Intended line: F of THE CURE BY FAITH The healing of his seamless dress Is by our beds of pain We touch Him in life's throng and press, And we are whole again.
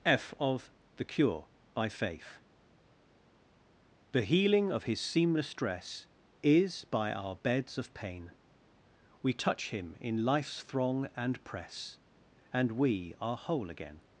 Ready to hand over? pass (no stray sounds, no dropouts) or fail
pass